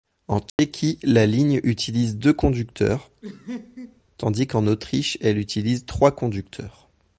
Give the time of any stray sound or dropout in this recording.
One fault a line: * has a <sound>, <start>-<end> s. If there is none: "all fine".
* has a dropout, 0.5-0.6 s
* has a laugh, 3.2-4.0 s